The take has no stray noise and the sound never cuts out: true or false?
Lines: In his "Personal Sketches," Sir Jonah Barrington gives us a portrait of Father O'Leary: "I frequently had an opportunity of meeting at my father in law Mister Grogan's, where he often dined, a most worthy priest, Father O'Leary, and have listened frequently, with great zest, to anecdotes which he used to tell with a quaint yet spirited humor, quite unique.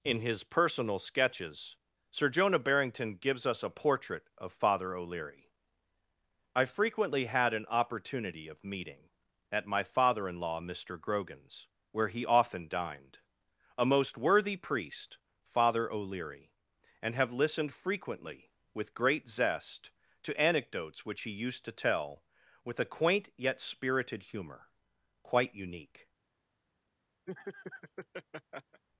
false